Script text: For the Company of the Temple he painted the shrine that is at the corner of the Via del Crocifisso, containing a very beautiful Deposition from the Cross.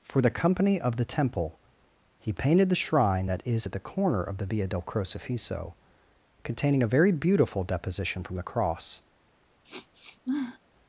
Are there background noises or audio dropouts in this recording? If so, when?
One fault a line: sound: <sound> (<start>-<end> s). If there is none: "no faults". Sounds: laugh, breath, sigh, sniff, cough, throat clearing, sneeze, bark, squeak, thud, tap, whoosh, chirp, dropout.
sound: sniff (9.6-10.6 s)